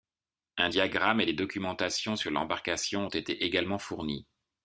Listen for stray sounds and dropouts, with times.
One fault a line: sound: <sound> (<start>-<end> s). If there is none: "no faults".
no faults